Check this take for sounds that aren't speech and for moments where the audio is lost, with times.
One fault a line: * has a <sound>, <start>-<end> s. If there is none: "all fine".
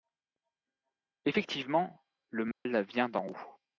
* has a dropout, 2.5-2.7 s